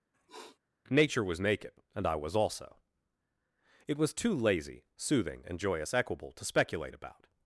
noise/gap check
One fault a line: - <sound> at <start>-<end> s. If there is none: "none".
- sniff at 0.1-0.6 s